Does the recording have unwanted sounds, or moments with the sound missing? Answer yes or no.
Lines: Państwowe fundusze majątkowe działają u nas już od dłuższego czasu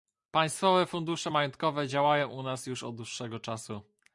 no